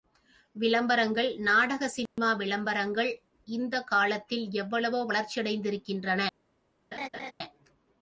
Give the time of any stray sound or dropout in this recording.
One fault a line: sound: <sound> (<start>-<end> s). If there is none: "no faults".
sound: dropout (2.1-2.2 s)
sound: laugh (6.9-7.3 s)